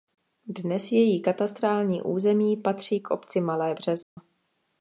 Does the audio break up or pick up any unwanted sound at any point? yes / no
yes